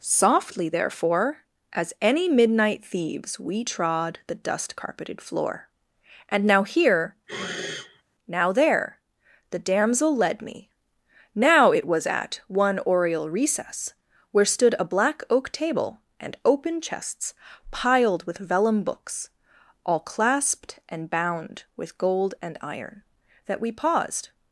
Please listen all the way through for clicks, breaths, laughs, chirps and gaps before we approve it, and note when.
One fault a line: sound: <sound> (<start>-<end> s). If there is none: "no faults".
sound: sniff (7.3-8.0 s)